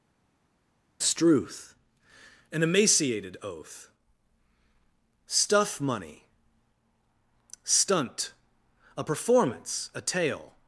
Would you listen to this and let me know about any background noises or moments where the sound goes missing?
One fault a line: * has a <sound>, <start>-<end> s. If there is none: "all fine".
all fine